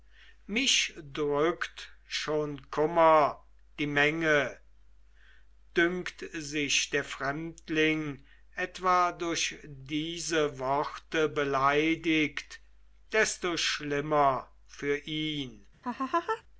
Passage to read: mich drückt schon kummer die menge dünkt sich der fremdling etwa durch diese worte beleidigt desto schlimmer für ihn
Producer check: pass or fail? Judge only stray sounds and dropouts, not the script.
fail